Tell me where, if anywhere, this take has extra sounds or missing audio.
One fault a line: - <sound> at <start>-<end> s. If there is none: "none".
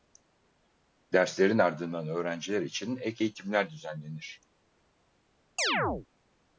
- chirp at 5.6-6.1 s